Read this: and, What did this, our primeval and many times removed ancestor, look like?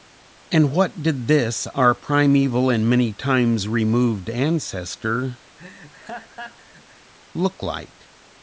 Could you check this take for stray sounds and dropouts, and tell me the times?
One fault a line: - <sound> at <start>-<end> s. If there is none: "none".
- laugh at 5.6-7.1 s